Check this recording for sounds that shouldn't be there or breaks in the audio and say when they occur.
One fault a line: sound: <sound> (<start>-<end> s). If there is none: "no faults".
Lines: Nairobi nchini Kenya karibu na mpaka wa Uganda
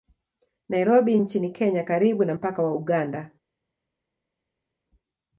no faults